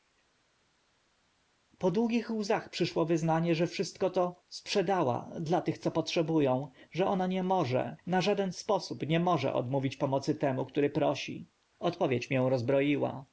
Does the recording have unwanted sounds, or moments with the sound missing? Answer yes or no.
no